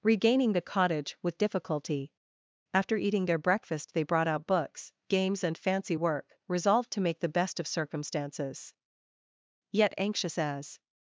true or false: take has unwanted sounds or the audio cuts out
false